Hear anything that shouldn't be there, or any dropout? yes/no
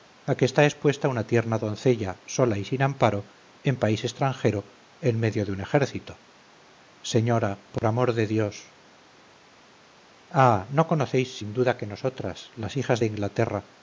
yes